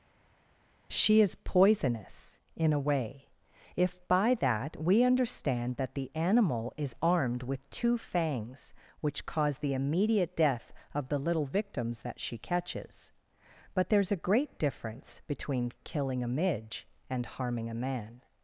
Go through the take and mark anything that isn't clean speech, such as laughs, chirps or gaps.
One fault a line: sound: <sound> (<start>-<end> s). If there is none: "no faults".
no faults